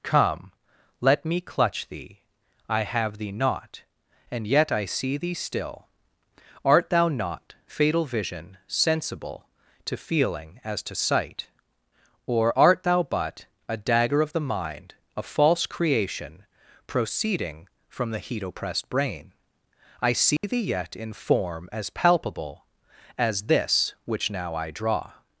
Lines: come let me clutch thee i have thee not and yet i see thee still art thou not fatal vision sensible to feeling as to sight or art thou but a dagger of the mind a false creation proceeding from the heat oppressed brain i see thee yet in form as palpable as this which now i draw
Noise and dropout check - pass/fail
fail